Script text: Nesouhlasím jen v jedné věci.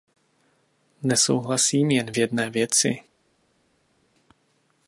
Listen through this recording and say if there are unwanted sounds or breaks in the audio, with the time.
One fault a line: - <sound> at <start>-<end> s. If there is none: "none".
none